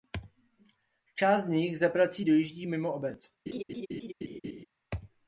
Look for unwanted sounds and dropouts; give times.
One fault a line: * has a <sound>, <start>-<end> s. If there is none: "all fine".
* has a laugh, 3.5-4.7 s